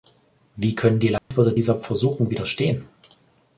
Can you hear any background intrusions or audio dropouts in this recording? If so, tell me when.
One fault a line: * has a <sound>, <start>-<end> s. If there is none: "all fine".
* has a dropout, 1.2-1.3 s